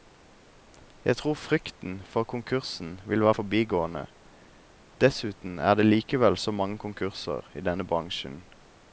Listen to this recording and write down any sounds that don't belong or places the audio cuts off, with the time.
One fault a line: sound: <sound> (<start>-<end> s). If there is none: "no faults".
no faults